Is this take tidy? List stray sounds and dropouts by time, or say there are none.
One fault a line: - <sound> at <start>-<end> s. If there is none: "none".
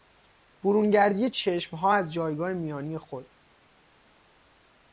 none